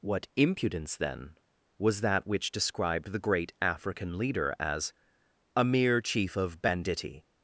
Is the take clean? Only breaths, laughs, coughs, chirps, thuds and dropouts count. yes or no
yes